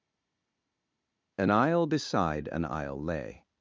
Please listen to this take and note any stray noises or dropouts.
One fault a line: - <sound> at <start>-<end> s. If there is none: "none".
none